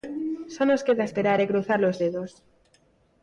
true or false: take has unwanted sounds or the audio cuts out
false